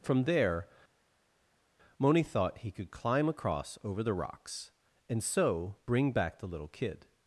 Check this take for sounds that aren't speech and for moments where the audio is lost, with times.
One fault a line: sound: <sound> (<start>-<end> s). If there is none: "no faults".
no faults